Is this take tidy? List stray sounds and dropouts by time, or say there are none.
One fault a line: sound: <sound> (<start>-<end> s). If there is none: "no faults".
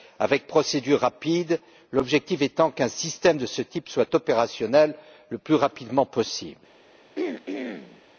sound: throat clearing (7.2-8.0 s)